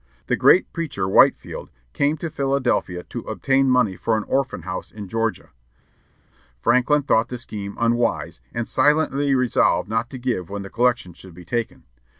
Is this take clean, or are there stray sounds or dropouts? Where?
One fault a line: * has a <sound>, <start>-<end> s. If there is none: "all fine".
all fine